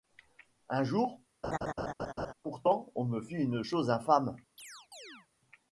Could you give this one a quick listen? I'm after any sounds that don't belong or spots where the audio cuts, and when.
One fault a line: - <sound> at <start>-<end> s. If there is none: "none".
- laugh at 1.4-2.3 s
- chirp at 4.6-5.3 s